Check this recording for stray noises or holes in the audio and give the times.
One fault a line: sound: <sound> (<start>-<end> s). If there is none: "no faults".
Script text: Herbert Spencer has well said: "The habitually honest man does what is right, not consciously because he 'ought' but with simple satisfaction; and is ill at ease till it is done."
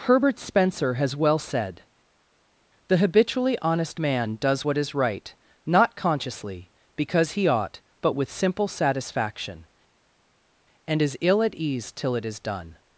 no faults